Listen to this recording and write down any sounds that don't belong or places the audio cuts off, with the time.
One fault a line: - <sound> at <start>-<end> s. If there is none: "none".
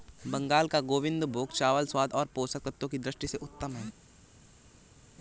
none